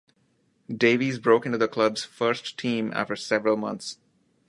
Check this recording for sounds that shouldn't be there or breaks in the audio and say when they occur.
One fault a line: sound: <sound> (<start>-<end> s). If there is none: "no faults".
no faults